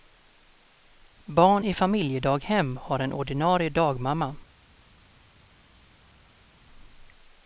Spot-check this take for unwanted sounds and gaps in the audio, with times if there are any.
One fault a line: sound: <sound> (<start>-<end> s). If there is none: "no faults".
no faults